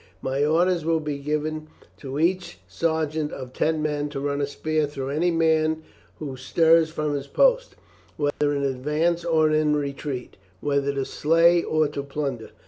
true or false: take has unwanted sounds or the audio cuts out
true